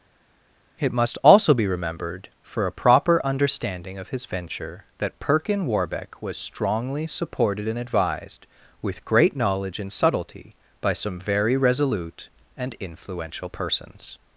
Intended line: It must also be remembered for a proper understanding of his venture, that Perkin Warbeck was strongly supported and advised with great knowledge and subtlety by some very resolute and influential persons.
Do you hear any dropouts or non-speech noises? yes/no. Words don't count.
no